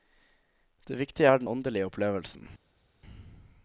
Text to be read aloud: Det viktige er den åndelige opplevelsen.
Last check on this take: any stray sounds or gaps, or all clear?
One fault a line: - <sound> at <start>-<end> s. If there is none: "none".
none